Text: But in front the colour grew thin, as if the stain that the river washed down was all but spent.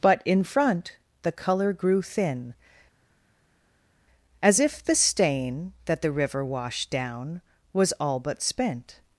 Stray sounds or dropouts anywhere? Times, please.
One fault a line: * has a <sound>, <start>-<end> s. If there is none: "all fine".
all fine